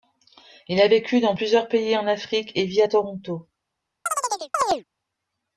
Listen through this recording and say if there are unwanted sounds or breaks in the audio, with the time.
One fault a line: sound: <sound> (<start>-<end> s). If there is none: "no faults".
sound: chirp (4.1-4.8 s)